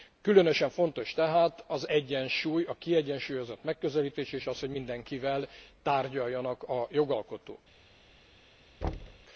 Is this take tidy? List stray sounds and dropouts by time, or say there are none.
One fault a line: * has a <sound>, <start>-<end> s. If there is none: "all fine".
* has a thud, 8.8-9.3 s